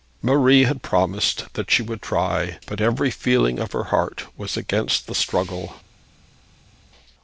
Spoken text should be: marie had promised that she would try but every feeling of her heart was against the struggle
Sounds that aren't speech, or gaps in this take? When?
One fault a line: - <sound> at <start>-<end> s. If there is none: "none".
none